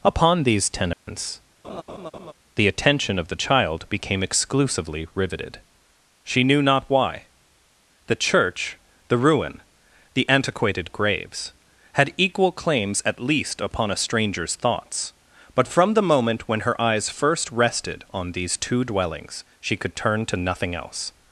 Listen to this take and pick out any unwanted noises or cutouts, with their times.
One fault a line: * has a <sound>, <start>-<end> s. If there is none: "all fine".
* has a dropout, 0.9-1.1 s
* has a laugh, 1.6-2.3 s